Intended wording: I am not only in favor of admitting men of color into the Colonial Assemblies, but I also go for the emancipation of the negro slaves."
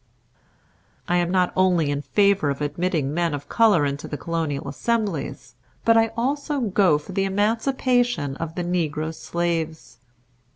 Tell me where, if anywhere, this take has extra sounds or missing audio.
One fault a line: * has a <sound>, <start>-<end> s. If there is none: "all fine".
all fine